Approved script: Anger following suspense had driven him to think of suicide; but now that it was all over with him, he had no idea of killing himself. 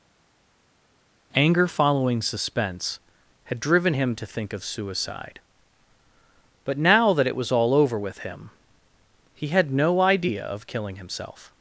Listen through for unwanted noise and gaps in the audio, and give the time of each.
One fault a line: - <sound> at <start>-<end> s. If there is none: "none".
none